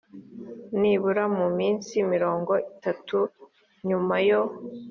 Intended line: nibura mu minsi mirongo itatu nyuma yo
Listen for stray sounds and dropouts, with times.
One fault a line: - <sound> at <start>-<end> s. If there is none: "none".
none